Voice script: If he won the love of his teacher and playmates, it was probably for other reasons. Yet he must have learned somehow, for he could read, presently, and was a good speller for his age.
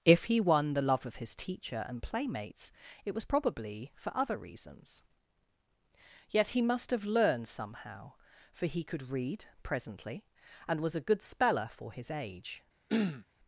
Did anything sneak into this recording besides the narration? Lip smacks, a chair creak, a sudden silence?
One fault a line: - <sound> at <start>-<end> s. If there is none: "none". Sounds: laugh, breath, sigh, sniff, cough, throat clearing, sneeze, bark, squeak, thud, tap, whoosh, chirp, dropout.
- throat clearing at 12.9-13.3 s